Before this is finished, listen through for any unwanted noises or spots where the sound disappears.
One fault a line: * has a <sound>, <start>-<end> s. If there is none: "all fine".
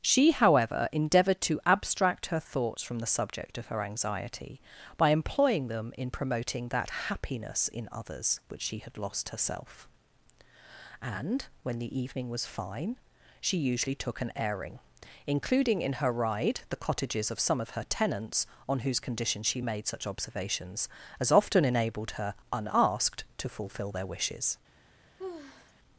* has a sigh, 25.2-25.7 s